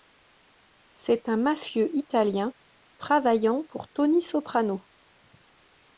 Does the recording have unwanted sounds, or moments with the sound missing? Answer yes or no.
no